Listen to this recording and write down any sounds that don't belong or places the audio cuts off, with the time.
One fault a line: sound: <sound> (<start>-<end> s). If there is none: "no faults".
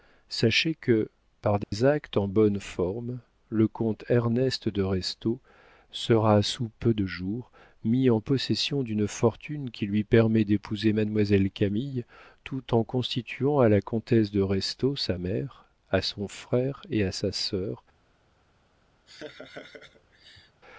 sound: dropout (1.6-1.7 s)
sound: laugh (19.1-20.6 s)